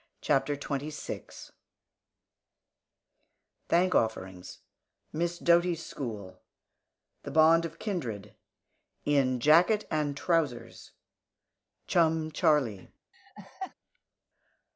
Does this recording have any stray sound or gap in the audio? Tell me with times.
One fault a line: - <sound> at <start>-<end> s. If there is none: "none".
- laugh at 13.1-13.7 s